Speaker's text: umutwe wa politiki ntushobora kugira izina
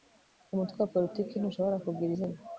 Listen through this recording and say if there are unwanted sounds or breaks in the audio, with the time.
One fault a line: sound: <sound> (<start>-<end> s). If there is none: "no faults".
no faults